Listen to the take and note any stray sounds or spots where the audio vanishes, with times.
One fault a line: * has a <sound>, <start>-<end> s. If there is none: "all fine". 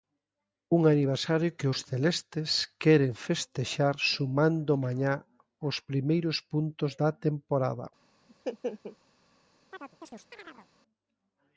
* has a laugh, 8.3-9.0 s
* has a chirp, 9.7-10.7 s